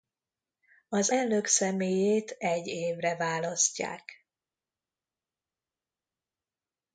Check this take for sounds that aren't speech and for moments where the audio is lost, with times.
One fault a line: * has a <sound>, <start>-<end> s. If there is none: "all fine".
all fine